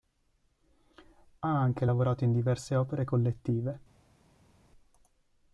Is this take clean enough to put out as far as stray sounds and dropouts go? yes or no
yes